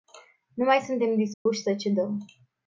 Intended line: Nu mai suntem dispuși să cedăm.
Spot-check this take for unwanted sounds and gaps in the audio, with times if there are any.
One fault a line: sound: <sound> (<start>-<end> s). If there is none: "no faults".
sound: dropout (1.3-1.5 s)